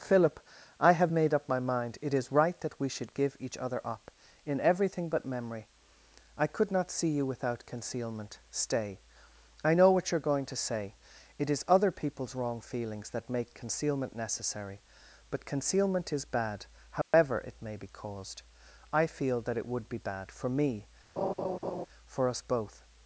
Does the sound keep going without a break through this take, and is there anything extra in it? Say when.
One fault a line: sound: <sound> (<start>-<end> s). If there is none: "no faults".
sound: dropout (17.0-17.1 s)
sound: laugh (21.2-21.9 s)